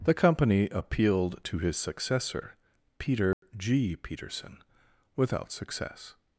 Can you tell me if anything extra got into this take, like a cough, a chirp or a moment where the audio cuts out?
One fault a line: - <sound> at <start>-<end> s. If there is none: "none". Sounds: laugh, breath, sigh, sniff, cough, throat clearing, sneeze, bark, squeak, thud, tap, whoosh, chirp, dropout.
- dropout at 3.3-3.4 s